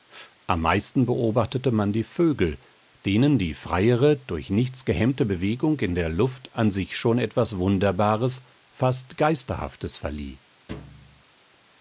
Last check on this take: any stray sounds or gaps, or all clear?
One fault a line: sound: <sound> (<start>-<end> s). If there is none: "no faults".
sound: thud (10.7-11.2 s)